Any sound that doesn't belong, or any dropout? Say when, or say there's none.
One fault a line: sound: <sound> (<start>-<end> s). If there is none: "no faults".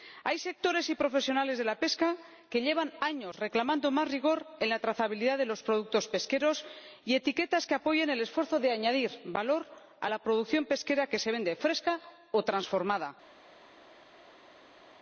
no faults